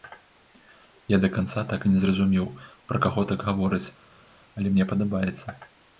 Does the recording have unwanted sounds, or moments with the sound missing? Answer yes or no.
no